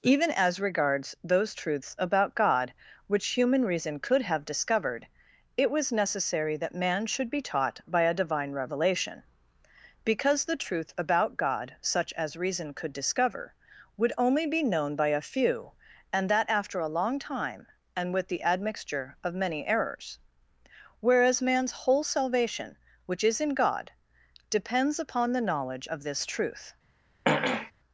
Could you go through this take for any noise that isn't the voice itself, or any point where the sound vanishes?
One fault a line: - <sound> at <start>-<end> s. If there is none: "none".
- throat clearing at 27.2-27.7 s